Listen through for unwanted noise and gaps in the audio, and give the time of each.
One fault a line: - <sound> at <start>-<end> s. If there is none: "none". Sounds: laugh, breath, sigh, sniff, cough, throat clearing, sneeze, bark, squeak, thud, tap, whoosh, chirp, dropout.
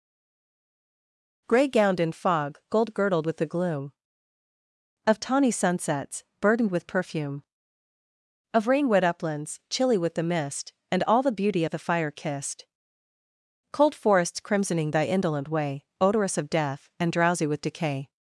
none